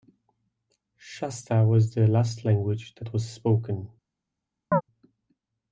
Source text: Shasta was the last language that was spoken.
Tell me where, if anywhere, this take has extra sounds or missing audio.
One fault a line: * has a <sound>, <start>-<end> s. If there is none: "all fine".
* has a chirp, 4.7-4.8 s